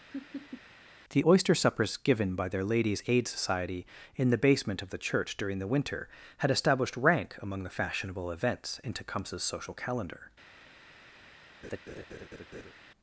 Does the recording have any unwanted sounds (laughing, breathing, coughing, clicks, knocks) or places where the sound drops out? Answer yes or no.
yes